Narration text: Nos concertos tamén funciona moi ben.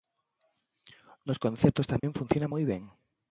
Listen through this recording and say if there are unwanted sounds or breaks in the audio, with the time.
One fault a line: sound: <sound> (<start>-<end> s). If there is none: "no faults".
sound: dropout (2.0-2.0 s)